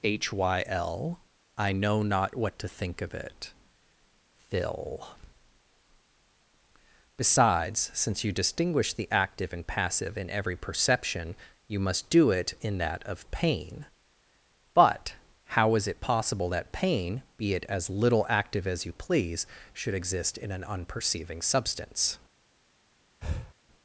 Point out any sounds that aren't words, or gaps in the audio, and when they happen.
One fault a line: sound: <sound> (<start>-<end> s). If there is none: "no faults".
sound: breath (23.2-23.5 s)